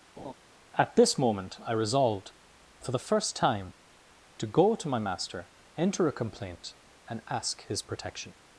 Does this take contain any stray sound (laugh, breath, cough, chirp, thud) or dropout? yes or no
yes